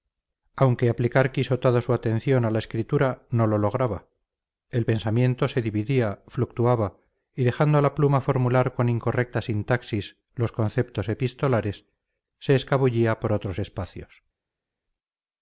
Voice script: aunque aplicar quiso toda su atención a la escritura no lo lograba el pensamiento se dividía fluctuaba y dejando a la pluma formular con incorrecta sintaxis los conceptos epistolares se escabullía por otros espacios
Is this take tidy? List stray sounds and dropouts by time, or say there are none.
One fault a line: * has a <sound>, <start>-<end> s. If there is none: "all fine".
all fine